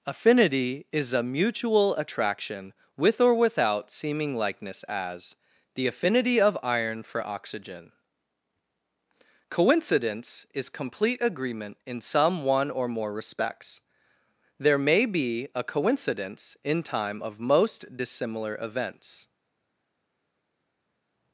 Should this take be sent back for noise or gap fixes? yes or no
no